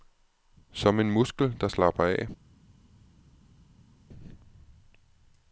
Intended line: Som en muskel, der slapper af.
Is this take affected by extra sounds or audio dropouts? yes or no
no